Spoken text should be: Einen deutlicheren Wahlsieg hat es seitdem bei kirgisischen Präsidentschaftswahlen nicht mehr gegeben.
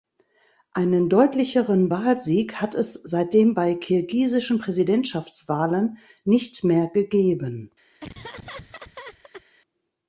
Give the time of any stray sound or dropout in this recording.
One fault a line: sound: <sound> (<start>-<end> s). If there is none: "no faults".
sound: laugh (8.0-9.4 s)